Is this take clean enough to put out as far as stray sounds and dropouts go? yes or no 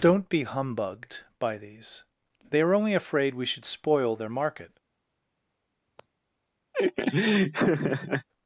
no